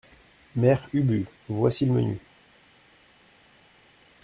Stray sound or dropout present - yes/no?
no